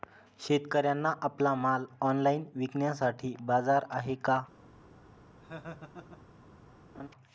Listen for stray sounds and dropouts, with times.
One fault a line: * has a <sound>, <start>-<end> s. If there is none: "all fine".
* has a laugh, 5.4-6.2 s
* has a laugh, 6.9-7.1 s